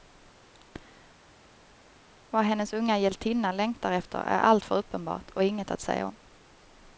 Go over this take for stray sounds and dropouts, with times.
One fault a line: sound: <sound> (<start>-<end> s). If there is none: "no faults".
no faults